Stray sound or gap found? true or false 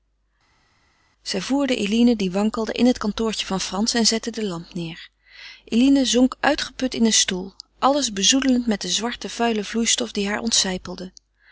false